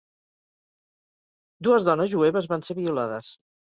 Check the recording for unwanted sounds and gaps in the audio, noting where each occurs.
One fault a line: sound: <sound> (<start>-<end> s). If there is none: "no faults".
no faults